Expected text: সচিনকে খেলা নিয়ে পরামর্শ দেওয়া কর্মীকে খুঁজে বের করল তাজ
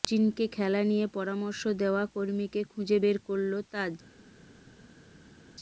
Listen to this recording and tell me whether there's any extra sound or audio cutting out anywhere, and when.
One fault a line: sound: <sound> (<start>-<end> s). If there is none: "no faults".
no faults